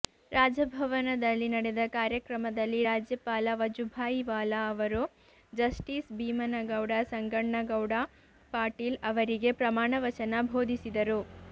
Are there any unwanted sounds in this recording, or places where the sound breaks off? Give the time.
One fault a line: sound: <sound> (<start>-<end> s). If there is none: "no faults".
no faults